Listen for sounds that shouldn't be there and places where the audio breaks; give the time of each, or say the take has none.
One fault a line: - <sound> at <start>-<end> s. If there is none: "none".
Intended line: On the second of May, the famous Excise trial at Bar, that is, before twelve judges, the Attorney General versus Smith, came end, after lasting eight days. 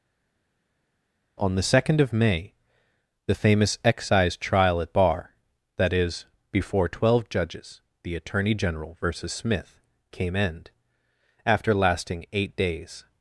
none